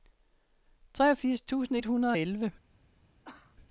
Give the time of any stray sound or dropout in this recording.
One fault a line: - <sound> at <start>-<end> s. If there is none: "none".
- cough at 3.2-3.6 s